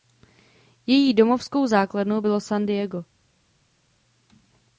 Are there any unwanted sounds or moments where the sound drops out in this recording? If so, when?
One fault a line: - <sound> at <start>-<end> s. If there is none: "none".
none